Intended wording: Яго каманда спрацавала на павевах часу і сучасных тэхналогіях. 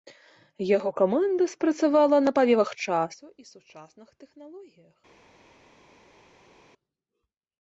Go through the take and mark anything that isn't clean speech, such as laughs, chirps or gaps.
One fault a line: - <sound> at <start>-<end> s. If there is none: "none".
none